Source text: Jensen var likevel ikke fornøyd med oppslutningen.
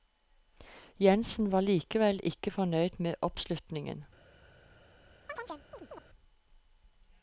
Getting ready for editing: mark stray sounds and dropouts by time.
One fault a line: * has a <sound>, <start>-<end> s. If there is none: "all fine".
* has a chirp, 5.3-6.0 s